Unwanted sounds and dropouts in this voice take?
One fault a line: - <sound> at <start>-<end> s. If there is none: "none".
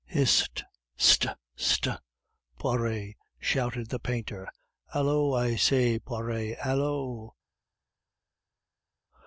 none